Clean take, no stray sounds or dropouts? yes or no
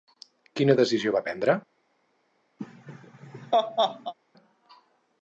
no